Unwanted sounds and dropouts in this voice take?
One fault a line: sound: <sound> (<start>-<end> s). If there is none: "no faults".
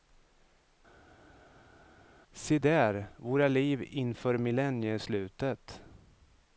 no faults